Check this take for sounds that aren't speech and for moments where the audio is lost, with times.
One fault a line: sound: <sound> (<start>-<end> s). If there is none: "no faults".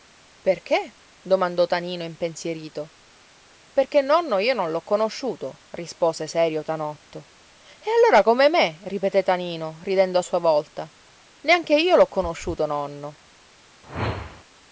sound: whoosh (13.8-14.4 s)